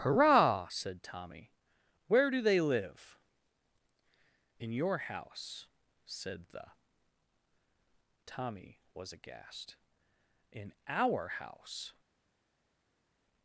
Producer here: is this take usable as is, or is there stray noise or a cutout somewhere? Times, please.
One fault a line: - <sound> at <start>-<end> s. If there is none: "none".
none